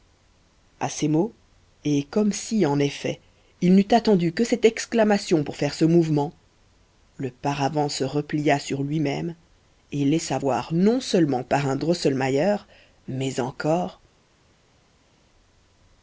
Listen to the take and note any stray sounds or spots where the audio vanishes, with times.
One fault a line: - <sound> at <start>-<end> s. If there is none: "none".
none